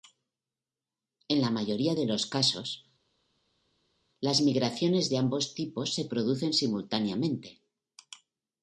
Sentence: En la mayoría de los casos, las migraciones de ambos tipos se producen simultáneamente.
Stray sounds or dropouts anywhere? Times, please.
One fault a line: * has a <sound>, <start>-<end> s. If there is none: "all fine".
all fine